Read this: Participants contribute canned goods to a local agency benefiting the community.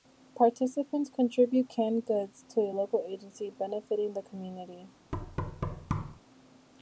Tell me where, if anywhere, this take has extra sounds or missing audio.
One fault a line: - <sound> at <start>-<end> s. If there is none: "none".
- thud at 5.1-6.2 s